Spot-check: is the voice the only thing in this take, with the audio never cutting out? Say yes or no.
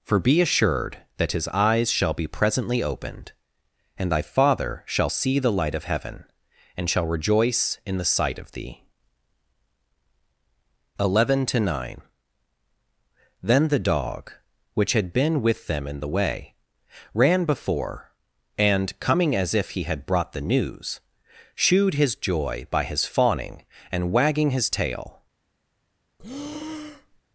no